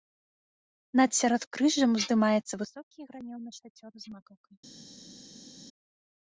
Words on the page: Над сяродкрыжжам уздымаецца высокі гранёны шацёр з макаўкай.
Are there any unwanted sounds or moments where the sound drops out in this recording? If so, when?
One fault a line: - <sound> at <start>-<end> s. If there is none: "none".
none